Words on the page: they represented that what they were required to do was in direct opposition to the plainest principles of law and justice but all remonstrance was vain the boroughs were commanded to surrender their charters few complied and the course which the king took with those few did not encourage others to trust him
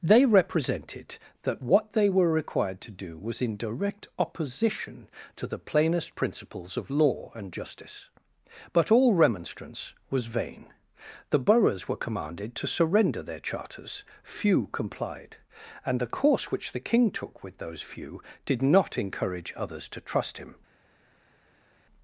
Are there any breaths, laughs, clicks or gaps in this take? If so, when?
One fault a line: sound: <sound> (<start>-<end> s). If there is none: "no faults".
no faults